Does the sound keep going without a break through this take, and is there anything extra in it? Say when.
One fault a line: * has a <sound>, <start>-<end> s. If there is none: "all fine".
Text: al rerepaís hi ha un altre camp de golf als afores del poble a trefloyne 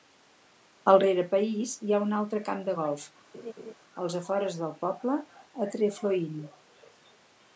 * has a laugh, 3.3-3.7 s